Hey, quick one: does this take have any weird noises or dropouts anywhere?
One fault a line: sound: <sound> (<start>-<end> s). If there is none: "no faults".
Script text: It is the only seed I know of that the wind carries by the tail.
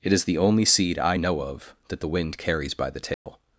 sound: dropout (3.1-3.3 s)